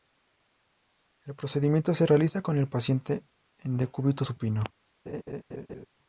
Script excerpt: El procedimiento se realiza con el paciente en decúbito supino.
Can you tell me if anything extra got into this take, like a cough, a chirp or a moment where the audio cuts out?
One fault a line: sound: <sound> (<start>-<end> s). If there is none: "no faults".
sound: laugh (5.1-5.9 s)